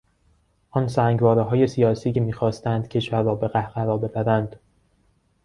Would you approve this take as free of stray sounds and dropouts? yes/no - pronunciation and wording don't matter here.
yes